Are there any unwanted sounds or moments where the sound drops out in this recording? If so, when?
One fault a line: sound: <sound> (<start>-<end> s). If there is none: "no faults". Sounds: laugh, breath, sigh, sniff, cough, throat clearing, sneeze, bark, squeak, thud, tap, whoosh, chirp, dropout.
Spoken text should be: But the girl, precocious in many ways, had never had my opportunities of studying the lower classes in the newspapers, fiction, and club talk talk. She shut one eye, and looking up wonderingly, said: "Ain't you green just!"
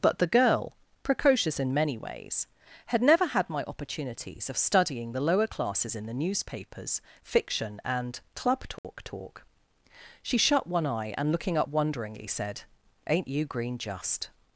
sound: dropout (8.8-8.8 s)